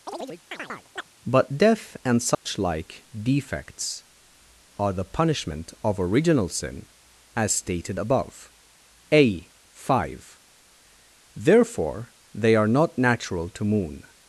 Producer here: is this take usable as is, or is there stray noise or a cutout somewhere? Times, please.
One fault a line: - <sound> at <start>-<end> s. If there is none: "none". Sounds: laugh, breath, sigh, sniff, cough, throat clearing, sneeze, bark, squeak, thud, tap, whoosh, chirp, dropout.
- chirp at 0.1-1.1 s
- dropout at 2.3-2.5 s